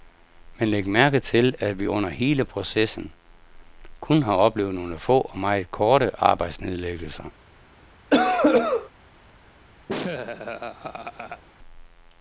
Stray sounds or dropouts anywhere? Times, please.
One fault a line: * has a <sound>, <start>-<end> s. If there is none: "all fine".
* has a cough, 8.1-8.9 s
* has a laugh, 9.9-11.4 s